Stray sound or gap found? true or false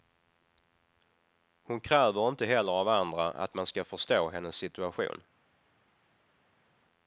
false